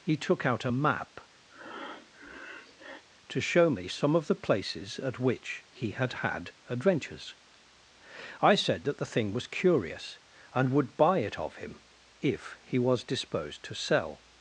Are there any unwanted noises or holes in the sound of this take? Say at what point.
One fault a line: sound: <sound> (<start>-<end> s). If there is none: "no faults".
sound: breath (1.5-3.0 s)